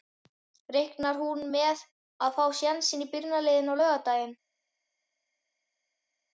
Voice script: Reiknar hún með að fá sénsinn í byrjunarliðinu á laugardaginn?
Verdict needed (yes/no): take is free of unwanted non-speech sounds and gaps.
yes